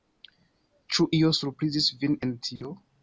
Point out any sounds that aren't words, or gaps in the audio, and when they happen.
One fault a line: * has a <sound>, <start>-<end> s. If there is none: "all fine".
* has a dropout, 2.6-2.6 s